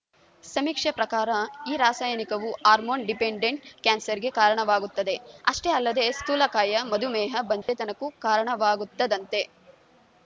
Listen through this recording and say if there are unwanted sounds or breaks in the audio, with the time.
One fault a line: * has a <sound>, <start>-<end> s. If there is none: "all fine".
* has a dropout, 7.6-7.7 s